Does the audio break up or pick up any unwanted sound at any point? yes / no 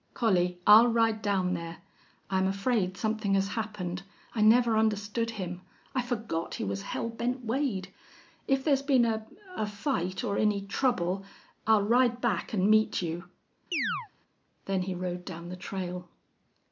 yes